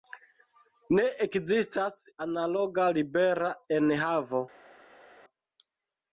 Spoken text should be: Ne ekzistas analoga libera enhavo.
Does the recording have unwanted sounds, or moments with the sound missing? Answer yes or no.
no